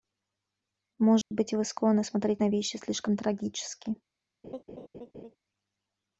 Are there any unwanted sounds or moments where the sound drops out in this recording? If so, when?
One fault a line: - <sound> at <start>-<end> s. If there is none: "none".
- dropout at 1.2-1.3 s
- laugh at 4.4-5.4 s